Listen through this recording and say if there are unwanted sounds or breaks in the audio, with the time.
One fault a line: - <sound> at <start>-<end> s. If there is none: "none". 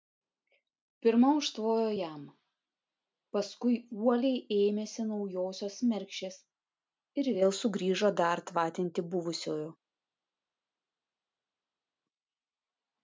none